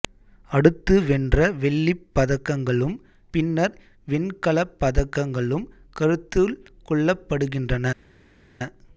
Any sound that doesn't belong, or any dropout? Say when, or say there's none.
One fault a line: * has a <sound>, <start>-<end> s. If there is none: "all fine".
all fine